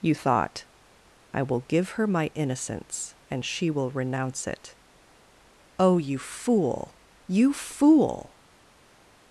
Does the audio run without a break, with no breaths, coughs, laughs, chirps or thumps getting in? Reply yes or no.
yes